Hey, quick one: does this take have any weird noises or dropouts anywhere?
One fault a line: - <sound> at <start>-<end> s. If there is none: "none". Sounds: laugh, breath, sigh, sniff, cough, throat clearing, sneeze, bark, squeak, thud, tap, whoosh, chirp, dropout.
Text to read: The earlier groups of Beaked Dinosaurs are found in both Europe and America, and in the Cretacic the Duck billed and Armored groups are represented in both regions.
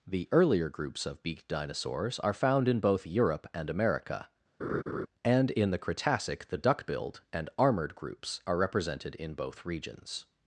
- laugh at 4.6-5.1 s